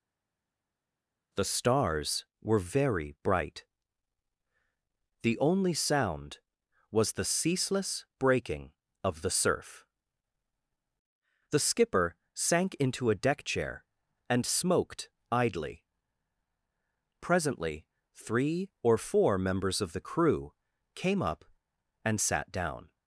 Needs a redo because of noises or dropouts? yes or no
no